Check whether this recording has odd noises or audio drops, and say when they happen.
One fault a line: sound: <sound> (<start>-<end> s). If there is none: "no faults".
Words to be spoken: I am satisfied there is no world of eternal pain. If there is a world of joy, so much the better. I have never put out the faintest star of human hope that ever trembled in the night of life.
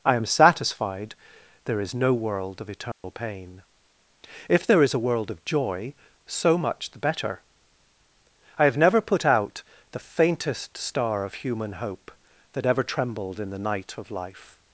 sound: dropout (2.9-3.0 s)